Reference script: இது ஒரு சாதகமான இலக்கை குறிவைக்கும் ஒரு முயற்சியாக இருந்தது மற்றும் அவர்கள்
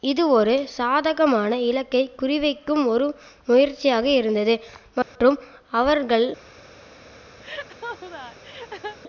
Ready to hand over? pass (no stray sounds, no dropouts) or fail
fail